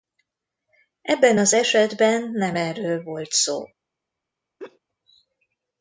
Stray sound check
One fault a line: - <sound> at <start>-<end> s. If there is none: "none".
- laugh at 4.6-4.8 s